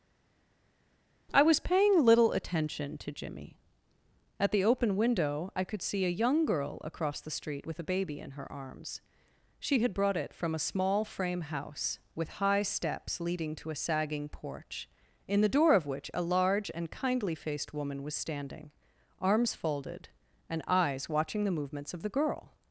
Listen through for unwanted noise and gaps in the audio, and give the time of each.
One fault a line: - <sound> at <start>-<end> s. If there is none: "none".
none